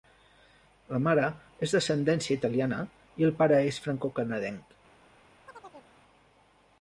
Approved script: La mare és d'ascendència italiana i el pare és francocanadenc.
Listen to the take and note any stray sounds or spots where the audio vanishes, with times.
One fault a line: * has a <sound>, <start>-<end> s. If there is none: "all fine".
* has a chirp, 5.5-5.9 s